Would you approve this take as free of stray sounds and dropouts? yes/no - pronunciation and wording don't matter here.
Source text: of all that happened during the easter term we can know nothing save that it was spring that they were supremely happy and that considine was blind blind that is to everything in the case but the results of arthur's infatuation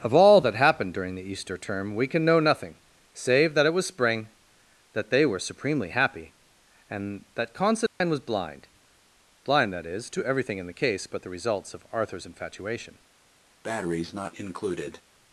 no